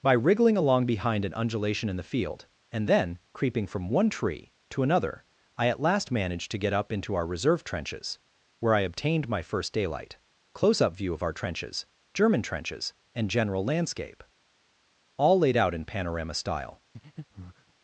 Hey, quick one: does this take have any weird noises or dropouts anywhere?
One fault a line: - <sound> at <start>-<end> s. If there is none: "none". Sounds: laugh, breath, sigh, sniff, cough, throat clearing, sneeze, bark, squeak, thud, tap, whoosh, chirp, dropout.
- breath at 16.9-17.7 s